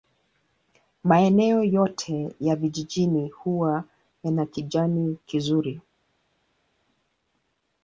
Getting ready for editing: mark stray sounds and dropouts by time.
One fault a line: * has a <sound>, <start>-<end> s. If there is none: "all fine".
all fine